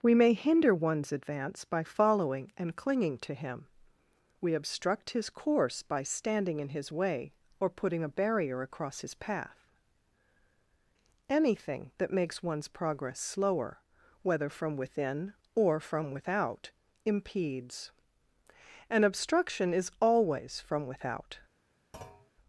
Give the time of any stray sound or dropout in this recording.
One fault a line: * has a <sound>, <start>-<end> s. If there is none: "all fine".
* has a thud, 21.9-22.3 s